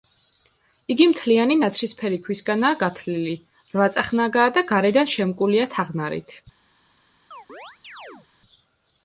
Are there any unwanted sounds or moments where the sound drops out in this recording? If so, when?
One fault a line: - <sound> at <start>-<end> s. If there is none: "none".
- chirp at 7.3-8.3 s